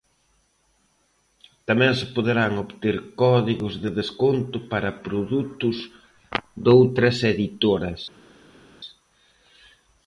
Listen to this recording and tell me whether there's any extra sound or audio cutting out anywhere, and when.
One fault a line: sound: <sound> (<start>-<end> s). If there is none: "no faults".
no faults